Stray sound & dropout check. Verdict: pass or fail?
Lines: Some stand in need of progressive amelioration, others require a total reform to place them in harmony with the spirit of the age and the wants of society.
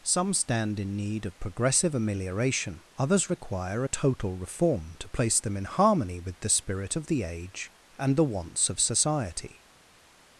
pass